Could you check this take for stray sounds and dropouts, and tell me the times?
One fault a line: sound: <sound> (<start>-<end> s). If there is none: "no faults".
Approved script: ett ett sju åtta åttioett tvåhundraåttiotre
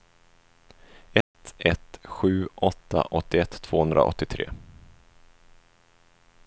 sound: dropout (1.2-1.3 s)